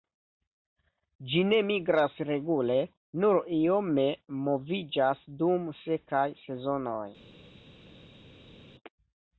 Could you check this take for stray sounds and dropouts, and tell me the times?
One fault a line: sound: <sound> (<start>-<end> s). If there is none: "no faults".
no faults